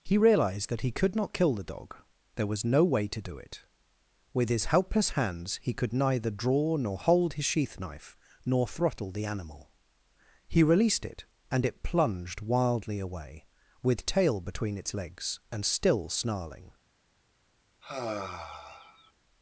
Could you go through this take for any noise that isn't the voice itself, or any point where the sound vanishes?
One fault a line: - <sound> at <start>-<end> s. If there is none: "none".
- sigh at 17.8-19.1 s